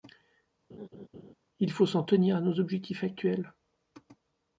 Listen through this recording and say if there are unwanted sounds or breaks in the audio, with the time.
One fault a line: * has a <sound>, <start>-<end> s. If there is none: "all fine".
* has a laugh, 0.7-1.3 s